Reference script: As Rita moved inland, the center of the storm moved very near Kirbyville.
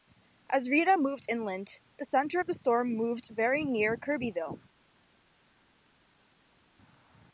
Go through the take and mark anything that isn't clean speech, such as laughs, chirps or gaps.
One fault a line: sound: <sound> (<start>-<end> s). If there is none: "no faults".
no faults